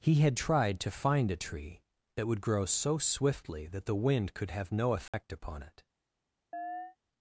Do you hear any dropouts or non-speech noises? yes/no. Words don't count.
yes